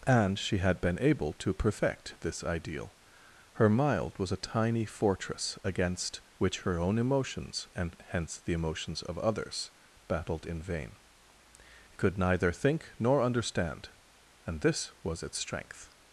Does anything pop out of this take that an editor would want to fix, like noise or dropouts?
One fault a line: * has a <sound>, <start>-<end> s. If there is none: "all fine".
all fine